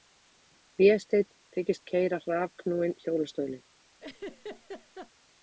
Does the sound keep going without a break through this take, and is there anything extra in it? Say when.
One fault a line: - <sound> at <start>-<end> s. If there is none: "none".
- laugh at 4.0-5.1 s